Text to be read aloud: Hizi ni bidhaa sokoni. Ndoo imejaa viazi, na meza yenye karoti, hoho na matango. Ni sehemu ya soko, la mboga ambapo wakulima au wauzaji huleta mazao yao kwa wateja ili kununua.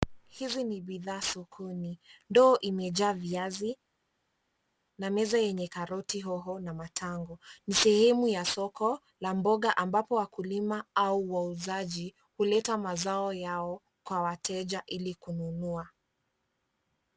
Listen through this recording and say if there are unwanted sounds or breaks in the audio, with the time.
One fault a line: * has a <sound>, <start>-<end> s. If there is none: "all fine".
all fine